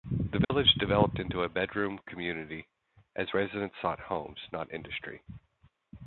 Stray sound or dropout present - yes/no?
yes